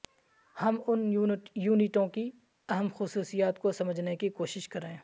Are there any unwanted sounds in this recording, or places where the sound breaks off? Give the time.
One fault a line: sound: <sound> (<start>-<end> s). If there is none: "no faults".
no faults